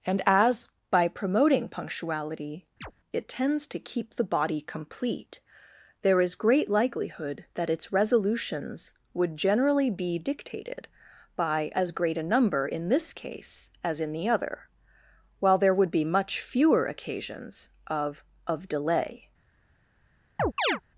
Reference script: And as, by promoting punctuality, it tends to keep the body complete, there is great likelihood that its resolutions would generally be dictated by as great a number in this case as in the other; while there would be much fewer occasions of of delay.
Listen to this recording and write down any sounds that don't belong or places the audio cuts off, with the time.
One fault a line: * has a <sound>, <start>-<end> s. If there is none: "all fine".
* has a chirp, 2.8-2.9 s
* has a chirp, 20.4-20.8 s